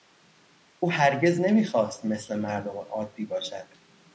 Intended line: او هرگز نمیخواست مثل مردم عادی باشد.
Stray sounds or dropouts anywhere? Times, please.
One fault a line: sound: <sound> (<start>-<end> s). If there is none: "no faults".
no faults